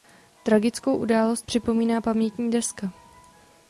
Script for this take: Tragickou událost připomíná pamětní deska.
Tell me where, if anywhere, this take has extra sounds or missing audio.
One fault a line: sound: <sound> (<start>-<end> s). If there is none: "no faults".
no faults